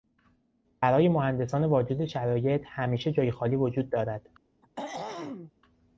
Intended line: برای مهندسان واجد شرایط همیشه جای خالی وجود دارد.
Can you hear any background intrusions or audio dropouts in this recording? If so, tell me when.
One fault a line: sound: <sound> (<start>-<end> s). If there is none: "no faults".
sound: throat clearing (4.6-5.5 s)